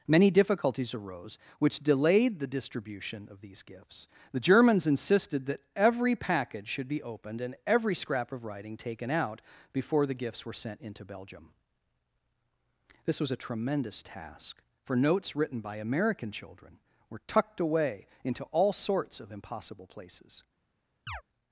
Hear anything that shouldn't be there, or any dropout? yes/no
yes